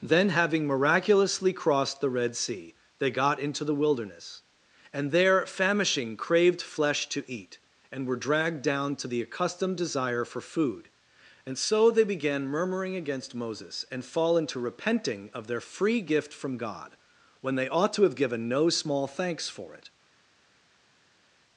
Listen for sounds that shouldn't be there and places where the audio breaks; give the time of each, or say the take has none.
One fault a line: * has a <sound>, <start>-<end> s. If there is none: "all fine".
all fine